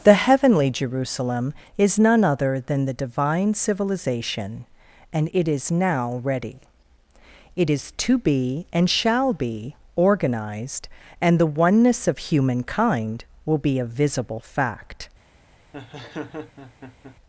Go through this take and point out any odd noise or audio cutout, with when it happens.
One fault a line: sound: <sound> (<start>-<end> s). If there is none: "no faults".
sound: laugh (15.7-17.2 s)